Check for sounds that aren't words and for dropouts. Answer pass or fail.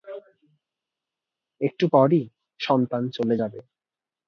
pass